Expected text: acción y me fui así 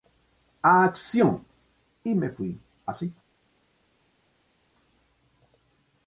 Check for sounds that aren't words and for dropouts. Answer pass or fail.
pass